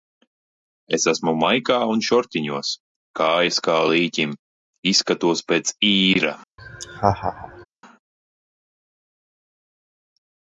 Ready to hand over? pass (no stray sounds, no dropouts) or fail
fail